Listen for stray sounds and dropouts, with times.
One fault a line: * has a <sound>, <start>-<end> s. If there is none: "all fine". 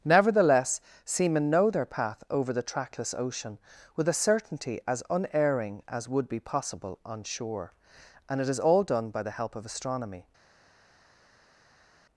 all fine